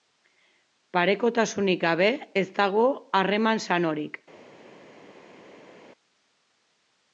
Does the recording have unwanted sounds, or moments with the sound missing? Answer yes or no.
no